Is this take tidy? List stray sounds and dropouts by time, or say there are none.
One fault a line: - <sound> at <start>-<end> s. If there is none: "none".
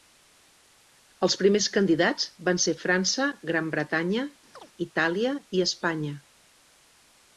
- chirp at 4.5-4.7 s